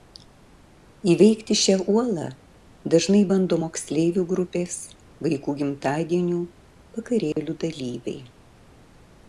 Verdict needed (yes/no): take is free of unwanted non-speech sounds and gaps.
no